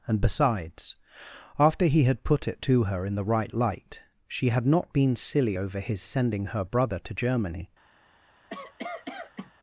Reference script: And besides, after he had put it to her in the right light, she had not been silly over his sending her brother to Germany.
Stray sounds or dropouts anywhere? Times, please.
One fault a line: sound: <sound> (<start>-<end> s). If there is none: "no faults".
sound: cough (8.5-9.5 s)